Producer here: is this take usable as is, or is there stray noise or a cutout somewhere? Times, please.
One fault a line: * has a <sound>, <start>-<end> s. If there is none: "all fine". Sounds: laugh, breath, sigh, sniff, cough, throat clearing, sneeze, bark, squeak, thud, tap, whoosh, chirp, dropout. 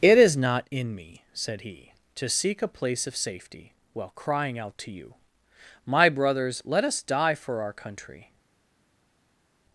all fine